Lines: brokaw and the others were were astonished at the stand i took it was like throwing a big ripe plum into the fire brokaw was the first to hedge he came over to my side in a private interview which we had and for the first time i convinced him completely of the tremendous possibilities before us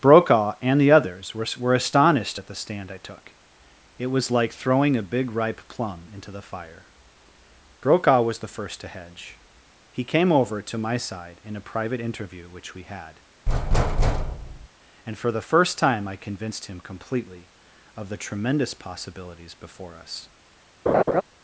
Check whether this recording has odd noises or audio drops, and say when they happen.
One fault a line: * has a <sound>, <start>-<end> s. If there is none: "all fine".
* has a thud, 13.5-14.7 s
* has a laugh, 20.9-21.2 s